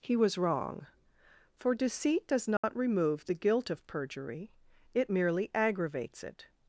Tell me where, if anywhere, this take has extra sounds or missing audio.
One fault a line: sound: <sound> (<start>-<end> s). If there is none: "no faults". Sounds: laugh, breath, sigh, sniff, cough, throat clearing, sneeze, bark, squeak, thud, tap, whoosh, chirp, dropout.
sound: dropout (2.6-2.6 s)